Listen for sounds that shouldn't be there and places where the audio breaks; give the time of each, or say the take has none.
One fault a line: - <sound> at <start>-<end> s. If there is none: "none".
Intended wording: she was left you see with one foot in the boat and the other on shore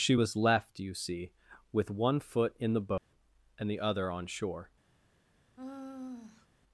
- dropout at 3.0-3.1 s
- sigh at 5.6-6.5 s